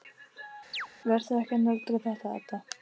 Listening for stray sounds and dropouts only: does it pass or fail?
fail